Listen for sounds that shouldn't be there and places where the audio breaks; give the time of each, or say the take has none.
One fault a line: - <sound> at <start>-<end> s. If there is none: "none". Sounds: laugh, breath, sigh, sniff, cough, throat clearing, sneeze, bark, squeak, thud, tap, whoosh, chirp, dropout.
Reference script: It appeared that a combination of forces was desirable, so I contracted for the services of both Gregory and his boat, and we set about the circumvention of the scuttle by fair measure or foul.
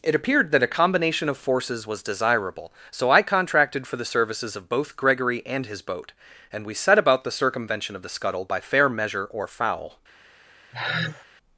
- sigh at 10.7-11.2 s